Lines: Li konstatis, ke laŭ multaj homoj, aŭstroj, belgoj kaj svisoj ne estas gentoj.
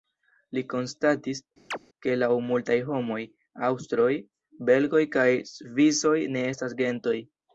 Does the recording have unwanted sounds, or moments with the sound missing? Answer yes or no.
yes